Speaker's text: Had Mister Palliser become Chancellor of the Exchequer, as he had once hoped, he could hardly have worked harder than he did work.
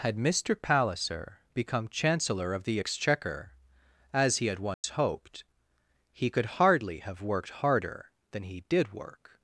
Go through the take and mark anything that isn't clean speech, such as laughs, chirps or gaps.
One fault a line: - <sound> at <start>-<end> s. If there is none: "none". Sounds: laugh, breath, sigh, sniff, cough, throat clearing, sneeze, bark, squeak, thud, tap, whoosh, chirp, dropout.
- dropout at 4.7-4.8 s